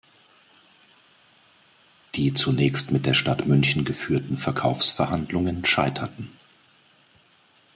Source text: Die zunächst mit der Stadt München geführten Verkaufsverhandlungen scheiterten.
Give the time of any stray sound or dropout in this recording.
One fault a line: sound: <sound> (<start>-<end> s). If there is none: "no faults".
no faults